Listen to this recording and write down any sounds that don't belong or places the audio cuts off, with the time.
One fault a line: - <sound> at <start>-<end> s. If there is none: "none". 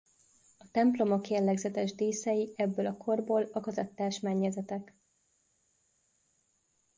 none